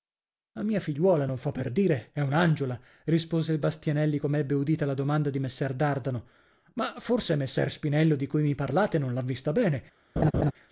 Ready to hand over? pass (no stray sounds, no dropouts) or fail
fail